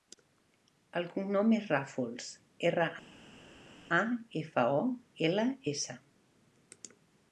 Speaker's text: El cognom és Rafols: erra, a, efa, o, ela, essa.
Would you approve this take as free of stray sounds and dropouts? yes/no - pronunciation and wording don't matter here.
yes